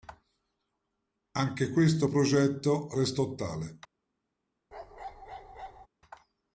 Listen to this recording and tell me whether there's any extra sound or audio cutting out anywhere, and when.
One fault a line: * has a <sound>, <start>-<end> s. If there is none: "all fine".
* has a bark, 4.7-5.9 s